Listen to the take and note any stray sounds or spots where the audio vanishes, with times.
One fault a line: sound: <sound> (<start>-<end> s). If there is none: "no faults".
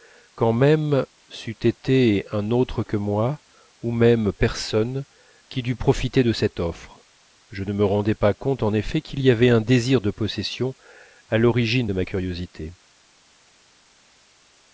no faults